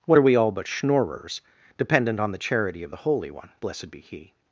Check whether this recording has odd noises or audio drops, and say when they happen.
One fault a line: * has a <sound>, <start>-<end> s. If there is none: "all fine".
all fine